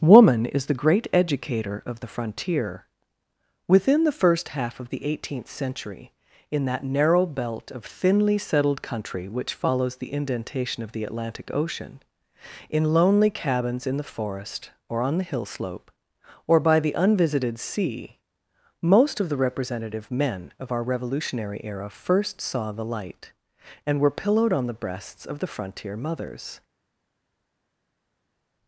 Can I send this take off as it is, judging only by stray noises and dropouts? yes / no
yes